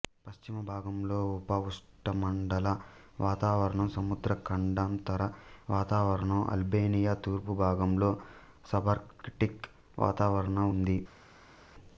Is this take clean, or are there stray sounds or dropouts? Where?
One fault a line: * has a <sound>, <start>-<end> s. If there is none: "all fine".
all fine